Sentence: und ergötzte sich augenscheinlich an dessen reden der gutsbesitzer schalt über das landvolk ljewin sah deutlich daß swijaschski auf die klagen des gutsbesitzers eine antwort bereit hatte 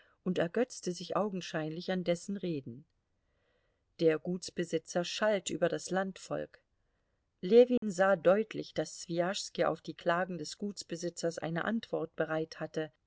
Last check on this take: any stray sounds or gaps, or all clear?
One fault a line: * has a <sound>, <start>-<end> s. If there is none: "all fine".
* has a dropout, 7.8-7.8 s